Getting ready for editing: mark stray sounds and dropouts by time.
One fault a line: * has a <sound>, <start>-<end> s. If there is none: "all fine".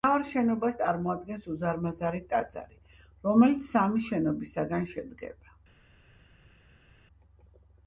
all fine